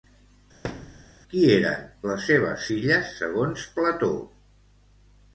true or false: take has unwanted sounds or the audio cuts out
true